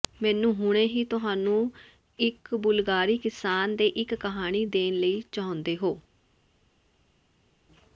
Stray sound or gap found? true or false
false